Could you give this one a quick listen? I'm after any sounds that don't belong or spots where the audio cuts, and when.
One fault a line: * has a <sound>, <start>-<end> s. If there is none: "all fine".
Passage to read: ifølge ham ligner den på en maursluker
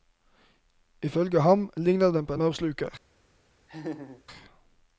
* has a laugh, 3.7-4.2 s